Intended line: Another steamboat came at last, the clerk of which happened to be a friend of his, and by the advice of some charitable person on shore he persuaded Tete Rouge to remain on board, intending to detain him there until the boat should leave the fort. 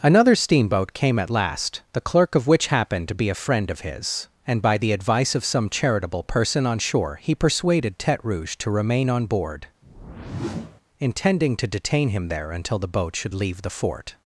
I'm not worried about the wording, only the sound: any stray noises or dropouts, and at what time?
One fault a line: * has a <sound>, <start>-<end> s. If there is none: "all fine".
* has a whoosh, 9.8-10.8 s